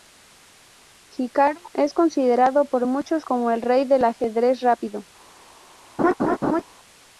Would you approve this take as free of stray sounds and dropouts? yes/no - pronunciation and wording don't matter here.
no